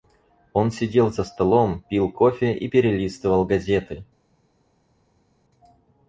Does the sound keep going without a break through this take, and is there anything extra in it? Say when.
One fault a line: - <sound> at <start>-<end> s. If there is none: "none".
none